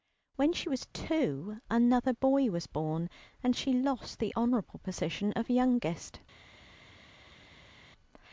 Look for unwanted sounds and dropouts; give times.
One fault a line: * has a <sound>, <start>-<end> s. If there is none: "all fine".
all fine